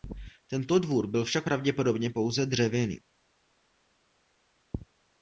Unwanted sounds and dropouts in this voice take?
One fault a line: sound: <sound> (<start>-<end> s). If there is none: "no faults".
no faults